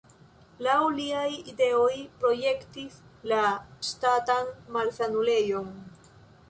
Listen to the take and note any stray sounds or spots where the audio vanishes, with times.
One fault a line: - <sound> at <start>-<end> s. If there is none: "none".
none